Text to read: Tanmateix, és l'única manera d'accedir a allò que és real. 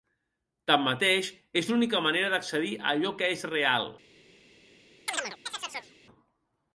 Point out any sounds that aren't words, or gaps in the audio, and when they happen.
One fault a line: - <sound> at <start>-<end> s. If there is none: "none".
- chirp at 5.1-5.9 s